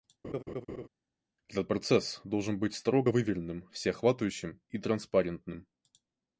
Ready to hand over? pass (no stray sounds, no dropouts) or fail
fail